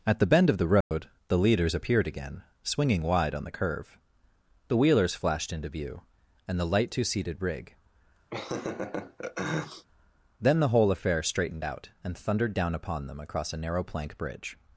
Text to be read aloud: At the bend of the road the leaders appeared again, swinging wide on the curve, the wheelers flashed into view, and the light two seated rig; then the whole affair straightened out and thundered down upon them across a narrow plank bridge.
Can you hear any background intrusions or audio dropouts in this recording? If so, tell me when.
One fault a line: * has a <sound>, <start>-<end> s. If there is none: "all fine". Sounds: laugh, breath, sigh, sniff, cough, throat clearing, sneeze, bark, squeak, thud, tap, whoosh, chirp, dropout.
* has a dropout, 0.8-0.9 s
* has a laugh, 8.3-9.9 s